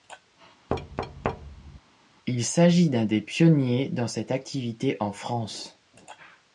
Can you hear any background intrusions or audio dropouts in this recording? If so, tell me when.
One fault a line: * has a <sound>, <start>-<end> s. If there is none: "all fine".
* has a thud, 0.7-1.8 s